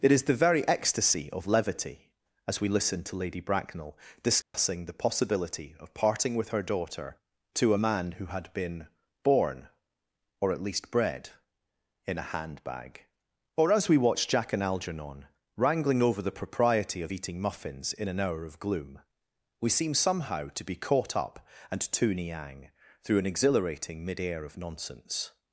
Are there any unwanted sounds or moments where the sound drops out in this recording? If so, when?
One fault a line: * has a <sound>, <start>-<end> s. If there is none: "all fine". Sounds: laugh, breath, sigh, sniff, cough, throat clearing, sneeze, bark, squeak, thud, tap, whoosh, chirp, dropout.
* has a dropout, 4.4-4.5 s